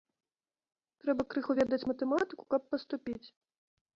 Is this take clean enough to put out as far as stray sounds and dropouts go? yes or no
yes